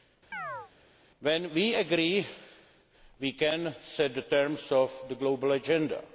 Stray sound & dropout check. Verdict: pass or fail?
fail